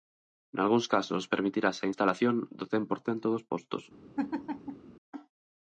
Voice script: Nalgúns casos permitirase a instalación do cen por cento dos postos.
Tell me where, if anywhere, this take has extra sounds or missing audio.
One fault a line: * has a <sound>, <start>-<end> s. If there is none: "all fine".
* has a laugh, 4.2-4.9 s